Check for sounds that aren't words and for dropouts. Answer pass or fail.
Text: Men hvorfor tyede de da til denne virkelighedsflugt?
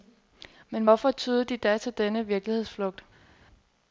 pass